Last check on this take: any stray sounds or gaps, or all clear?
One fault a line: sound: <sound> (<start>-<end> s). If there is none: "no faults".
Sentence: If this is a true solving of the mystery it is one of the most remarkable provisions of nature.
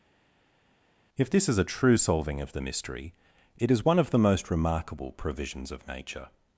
no faults